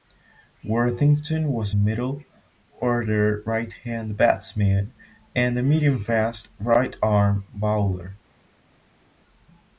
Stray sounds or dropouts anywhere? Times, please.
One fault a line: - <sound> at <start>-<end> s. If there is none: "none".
none